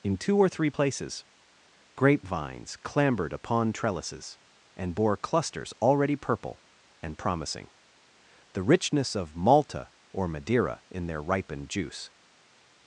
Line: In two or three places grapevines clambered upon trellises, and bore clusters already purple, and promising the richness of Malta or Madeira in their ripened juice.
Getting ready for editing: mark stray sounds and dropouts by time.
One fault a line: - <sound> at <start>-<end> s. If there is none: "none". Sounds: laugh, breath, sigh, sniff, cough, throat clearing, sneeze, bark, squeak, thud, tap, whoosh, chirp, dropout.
none